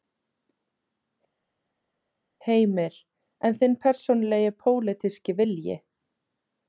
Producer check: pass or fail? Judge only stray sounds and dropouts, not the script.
pass